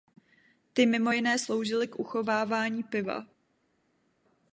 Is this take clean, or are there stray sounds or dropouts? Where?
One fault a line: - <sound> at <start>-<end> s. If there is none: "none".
none